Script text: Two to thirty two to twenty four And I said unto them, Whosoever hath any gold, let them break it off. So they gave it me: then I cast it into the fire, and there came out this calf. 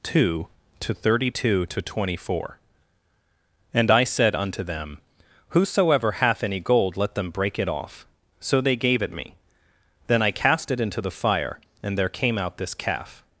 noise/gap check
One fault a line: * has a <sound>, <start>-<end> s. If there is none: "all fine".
all fine